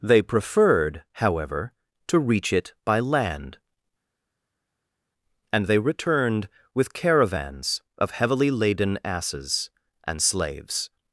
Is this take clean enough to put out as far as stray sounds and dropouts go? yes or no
yes